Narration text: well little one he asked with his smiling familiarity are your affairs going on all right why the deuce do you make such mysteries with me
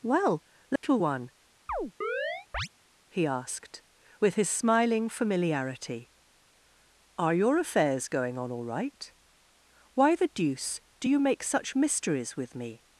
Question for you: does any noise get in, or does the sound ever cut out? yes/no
yes